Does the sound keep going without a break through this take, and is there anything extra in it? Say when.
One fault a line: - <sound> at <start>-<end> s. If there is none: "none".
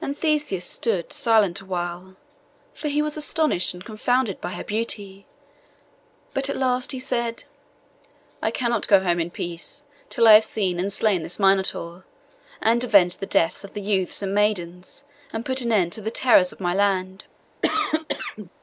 - cough at 17.6-18.5 s